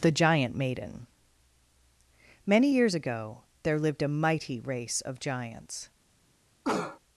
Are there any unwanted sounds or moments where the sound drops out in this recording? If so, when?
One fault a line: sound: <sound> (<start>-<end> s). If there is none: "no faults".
sound: cough (6.6-7.0 s)